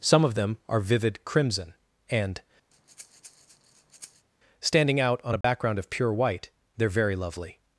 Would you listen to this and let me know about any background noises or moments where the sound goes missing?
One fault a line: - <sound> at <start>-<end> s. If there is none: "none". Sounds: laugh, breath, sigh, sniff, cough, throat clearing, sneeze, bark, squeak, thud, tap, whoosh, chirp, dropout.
- breath at 2.7-4.3 s
- dropout at 5.4-5.4 s